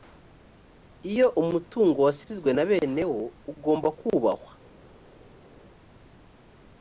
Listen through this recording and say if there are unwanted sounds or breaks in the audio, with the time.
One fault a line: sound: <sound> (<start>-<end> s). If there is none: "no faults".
no faults